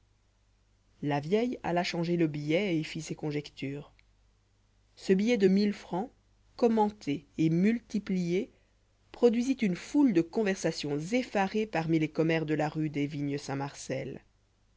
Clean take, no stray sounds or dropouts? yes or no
yes